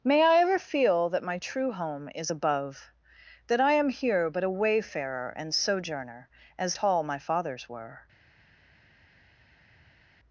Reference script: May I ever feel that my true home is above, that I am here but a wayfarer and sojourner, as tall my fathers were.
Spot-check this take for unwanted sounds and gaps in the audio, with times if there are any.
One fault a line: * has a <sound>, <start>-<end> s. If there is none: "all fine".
all fine